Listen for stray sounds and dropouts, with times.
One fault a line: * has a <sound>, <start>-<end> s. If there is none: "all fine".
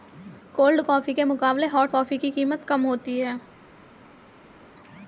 all fine